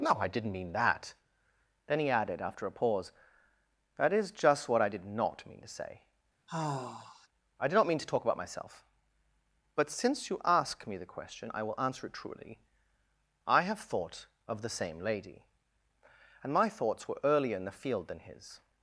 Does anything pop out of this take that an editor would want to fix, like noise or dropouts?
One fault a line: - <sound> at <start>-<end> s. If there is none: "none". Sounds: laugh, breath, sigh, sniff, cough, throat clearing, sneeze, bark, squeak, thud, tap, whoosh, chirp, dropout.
- sigh at 6.5-7.3 s